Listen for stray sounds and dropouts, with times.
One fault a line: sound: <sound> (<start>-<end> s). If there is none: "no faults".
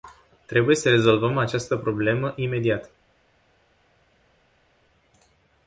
no faults